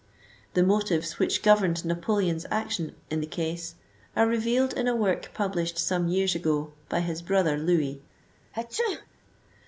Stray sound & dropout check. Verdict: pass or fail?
fail